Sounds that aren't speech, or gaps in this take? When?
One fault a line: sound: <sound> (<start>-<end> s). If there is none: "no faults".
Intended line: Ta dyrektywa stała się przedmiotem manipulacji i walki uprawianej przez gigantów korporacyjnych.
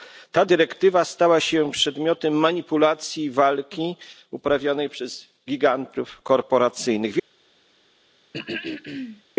sound: throat clearing (8.3-9.2 s)